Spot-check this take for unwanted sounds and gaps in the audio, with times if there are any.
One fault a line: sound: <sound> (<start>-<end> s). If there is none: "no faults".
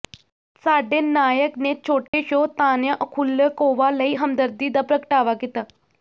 sound: dropout (2.1-2.1 s)